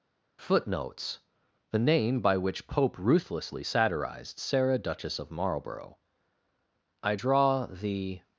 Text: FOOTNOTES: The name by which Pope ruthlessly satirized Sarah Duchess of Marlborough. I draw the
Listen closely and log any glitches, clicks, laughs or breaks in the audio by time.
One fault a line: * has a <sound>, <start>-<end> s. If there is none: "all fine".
all fine